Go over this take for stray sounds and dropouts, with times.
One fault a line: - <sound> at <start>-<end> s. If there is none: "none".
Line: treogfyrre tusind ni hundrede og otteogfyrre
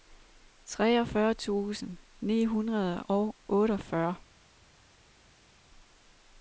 none